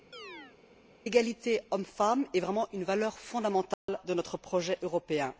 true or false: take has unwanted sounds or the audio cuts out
true